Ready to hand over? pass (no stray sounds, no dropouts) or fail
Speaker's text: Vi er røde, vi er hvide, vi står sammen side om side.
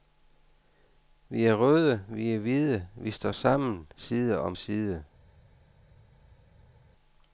pass